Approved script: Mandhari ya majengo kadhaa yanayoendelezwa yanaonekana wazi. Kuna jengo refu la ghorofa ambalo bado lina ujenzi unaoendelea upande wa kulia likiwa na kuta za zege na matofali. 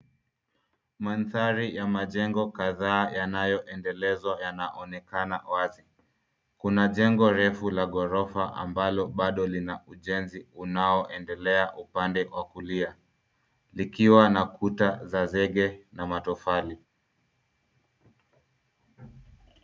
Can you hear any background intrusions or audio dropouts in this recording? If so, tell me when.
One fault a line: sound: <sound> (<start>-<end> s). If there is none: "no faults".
no faults